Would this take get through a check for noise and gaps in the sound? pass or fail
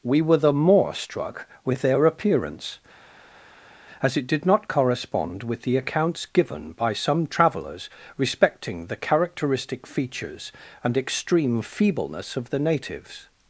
pass